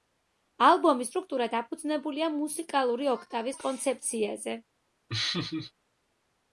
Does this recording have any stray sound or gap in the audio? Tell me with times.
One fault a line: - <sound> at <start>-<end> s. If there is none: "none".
- laugh at 5.1-5.7 s